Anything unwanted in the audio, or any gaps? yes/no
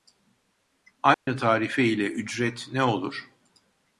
yes